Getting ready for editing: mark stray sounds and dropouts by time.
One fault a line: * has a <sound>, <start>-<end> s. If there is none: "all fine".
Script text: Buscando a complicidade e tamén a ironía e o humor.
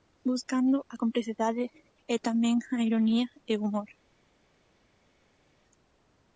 all fine